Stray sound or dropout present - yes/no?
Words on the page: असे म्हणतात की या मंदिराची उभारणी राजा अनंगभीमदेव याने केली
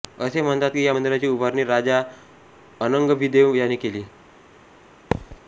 yes